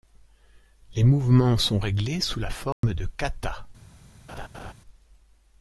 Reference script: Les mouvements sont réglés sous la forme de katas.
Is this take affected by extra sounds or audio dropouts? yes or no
yes